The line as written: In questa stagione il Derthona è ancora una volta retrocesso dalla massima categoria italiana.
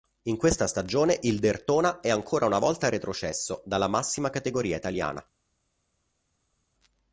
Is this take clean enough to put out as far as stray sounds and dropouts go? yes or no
yes